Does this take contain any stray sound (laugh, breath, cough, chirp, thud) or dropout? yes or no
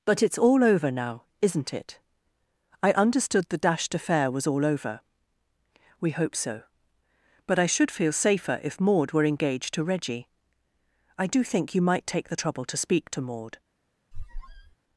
yes